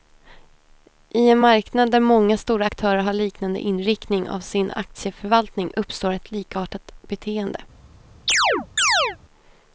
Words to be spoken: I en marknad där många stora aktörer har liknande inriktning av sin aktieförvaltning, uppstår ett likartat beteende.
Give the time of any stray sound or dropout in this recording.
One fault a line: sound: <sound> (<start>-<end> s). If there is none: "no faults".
sound: chirp (8.3-9.2 s)